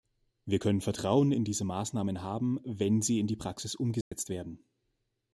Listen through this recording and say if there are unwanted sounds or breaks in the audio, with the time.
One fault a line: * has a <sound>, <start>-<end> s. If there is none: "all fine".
* has a dropout, 4.0-4.1 s